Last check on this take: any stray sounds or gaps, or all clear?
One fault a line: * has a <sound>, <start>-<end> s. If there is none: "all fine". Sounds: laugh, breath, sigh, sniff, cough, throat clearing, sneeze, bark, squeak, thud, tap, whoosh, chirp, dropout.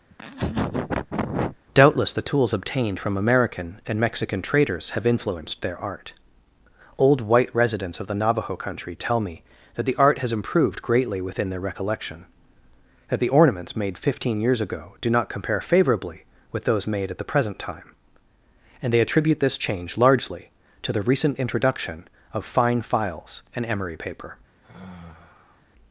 * has a laugh, 0.1-1.6 s
* has a sigh, 24.6-25.6 s